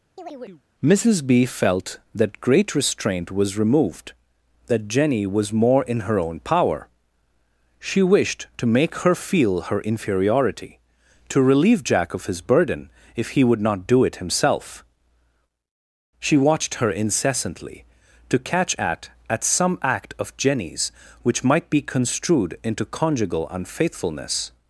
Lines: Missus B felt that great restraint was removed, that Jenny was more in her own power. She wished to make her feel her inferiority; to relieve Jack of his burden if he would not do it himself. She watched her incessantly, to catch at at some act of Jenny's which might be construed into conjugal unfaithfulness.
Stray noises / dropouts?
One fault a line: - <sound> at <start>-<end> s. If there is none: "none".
- chirp at 0.2-0.6 s